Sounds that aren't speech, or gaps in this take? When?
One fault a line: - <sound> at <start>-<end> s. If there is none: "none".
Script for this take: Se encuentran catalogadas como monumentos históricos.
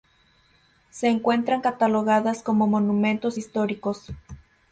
none